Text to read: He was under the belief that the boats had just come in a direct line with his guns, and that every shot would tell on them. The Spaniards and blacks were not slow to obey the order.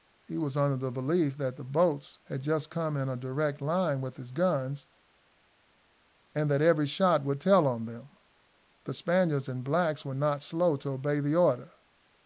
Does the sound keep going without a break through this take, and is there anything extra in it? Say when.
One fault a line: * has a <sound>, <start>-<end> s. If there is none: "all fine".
all fine